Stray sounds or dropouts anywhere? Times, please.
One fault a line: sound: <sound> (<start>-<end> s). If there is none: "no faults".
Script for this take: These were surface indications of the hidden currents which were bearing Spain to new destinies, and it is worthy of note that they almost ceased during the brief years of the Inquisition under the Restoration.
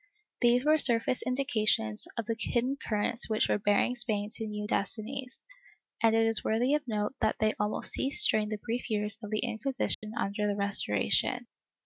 sound: dropout (9.9-10.0 s)